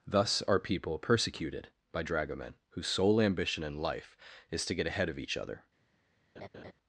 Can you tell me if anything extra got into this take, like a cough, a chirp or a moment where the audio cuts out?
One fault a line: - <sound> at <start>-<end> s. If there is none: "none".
- laugh at 6.4-6.7 s